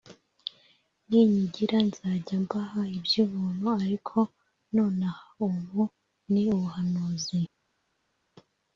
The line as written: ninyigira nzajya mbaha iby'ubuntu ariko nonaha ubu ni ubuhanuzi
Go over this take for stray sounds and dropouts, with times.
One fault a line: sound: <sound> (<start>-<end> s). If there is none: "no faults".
no faults